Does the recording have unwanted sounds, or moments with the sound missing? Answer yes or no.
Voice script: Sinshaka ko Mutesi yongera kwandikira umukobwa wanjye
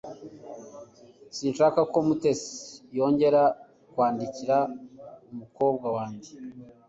no